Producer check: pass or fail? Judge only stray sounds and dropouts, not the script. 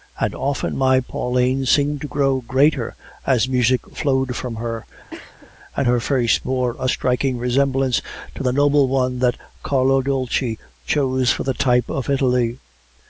fail